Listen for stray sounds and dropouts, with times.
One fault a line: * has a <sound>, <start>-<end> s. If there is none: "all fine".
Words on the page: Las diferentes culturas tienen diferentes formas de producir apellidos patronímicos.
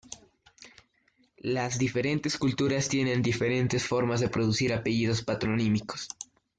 all fine